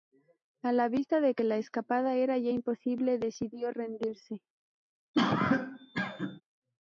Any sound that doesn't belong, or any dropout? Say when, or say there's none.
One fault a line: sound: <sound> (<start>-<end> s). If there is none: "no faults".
sound: cough (5.1-6.4 s)